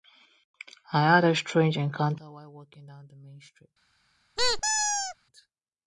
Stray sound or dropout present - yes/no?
yes